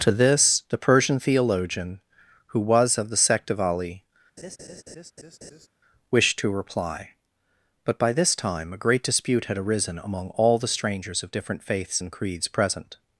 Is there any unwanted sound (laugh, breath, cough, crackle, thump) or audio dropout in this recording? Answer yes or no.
yes